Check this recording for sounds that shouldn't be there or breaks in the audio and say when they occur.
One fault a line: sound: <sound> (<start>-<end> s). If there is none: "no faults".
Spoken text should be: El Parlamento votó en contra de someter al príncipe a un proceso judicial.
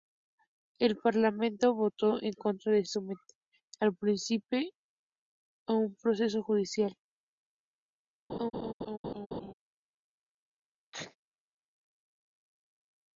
sound: laugh (8.3-9.5 s)
sound: sneeze (10.9-11.2 s)